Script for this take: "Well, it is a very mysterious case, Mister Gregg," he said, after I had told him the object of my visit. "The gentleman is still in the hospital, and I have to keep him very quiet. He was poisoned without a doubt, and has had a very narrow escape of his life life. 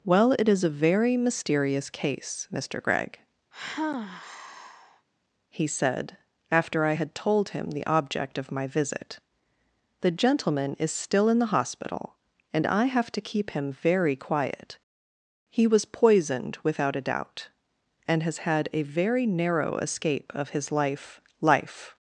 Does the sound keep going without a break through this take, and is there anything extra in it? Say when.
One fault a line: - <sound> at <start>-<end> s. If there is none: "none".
- sigh at 3.5-5.1 s